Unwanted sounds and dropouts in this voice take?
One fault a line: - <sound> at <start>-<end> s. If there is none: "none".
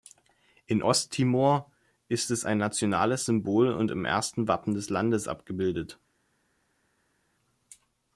none